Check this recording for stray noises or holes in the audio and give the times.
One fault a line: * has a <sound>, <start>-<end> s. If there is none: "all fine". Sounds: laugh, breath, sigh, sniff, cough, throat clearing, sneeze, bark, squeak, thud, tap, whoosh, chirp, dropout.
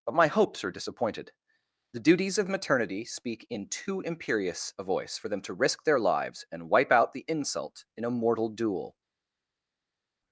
all fine